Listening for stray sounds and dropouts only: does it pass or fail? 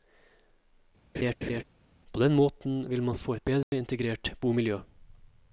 fail